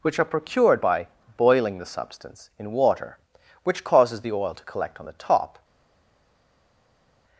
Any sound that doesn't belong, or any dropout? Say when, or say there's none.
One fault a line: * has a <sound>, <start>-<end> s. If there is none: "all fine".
all fine